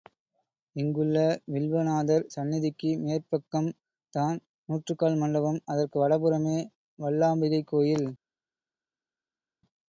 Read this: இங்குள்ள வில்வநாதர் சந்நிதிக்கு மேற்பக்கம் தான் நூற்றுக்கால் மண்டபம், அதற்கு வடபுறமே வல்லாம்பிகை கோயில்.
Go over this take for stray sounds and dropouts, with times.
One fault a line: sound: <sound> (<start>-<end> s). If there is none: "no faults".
no faults